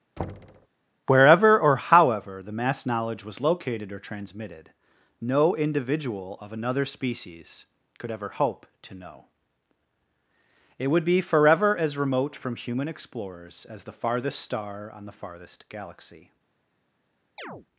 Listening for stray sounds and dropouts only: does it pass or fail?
fail